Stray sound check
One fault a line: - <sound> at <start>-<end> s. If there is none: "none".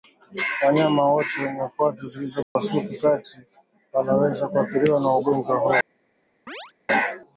- dropout at 2.4-2.6 s
- chirp at 6.5-6.7 s